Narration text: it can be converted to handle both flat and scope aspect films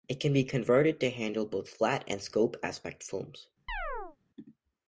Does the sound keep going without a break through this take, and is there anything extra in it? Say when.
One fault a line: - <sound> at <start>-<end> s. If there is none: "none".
- chirp at 3.7-4.2 s